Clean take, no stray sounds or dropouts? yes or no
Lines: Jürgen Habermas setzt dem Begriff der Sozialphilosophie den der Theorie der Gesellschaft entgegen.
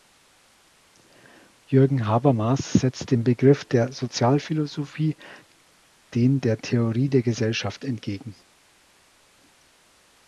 yes